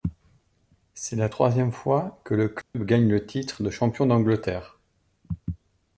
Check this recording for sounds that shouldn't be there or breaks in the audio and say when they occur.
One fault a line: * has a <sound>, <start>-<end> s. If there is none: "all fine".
* has a dropout, 2.6-2.7 s